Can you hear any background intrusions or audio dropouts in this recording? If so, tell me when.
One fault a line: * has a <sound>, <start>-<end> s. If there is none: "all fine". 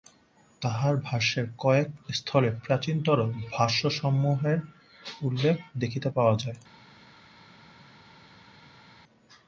all fine